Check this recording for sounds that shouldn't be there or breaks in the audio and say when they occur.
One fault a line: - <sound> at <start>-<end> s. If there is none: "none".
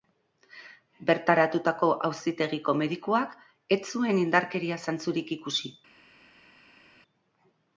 none